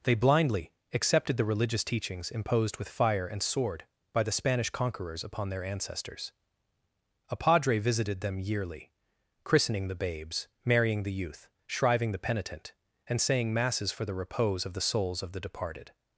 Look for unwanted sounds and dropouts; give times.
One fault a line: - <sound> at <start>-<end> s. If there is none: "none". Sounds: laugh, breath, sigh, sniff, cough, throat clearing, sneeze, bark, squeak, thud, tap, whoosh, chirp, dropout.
none